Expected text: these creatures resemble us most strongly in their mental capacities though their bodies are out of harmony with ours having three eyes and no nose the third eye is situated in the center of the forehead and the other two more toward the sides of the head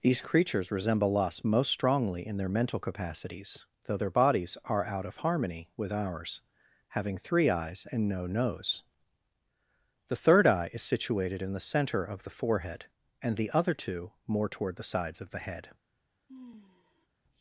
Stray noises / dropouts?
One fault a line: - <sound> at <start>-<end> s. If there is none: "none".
- sigh at 16.3-17.1 s